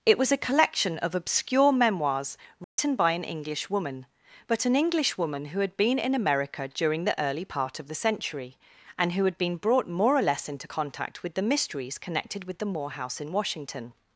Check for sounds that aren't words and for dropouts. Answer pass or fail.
fail